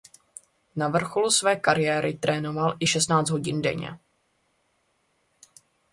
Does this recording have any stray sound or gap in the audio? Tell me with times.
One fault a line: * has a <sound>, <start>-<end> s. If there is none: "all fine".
all fine